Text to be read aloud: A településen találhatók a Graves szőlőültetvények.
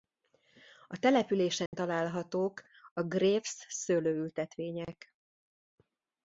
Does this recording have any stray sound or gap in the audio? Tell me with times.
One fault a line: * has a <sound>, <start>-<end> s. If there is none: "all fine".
* has a dropout, 1.7-1.7 s